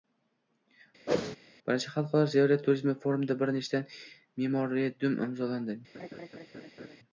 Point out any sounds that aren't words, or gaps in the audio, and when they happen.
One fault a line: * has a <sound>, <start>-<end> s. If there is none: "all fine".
* has a whoosh, 1.1-1.4 s
* has a laugh, 5.9-7.0 s